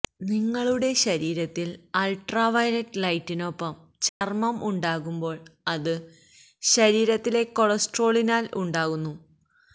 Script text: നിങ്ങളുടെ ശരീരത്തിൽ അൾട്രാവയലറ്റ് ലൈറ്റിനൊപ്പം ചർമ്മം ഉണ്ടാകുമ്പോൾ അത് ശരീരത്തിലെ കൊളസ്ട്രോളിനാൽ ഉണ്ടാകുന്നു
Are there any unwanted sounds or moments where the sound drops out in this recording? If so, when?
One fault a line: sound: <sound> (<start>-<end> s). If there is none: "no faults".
sound: dropout (4.1-4.2 s)